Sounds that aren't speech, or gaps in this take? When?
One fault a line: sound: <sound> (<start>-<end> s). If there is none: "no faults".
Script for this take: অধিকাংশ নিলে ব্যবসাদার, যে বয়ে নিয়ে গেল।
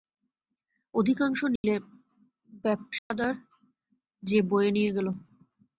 sound: dropout (1.6-1.6 s)
sound: dropout (3.0-3.1 s)